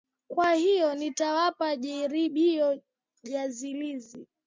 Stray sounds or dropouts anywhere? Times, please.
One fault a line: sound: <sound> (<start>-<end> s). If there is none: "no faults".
no faults